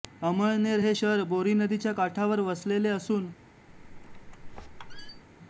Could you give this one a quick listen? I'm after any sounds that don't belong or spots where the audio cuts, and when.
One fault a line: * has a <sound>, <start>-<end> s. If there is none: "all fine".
* has a squeak, 3.7-5.2 s